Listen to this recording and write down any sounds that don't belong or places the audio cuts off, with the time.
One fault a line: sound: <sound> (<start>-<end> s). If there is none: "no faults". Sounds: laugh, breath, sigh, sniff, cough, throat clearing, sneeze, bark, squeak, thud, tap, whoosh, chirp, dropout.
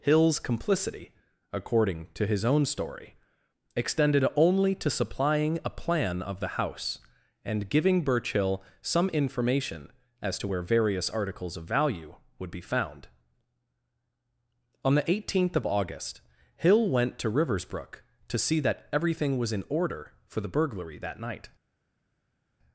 no faults